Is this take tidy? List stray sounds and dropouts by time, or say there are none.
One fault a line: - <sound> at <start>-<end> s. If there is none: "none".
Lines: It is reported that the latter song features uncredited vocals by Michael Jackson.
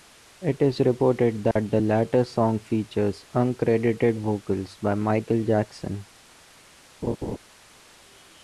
- dropout at 1.5-1.6 s
- laugh at 7.0-7.4 s